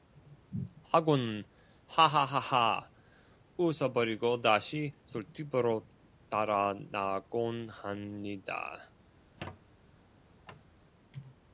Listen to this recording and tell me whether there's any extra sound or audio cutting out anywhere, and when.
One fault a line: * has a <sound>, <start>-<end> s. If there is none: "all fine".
* has a squeak, 9.2-10.7 s